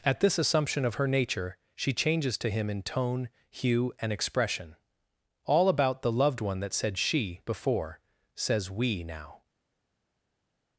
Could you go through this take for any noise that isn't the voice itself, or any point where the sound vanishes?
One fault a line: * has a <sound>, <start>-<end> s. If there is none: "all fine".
all fine